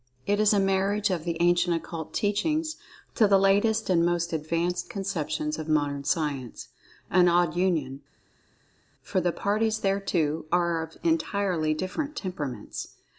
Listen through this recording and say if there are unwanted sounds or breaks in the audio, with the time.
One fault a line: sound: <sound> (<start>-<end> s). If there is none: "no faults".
no faults